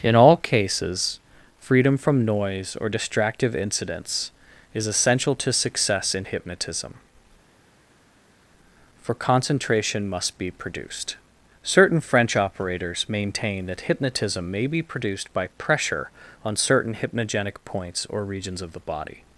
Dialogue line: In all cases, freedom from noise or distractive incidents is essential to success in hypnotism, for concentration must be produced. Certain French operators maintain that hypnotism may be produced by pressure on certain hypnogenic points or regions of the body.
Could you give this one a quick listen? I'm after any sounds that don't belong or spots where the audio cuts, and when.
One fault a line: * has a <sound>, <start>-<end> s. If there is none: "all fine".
all fine